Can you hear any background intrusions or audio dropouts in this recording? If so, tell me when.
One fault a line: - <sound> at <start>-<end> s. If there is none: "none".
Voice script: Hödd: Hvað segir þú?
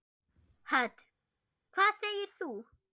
none